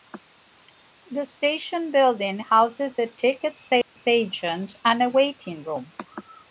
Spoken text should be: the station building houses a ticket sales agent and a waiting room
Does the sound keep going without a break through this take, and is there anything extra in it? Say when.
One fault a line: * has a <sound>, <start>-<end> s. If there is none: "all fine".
* has a dropout, 3.8-4.0 s